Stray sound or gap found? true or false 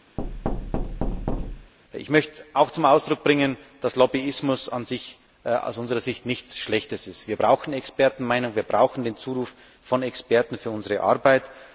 true